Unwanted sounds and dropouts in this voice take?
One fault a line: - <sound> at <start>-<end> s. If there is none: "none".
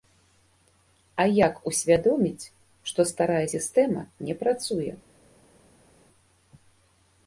none